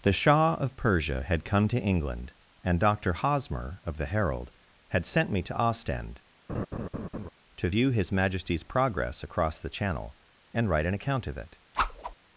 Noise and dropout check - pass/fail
fail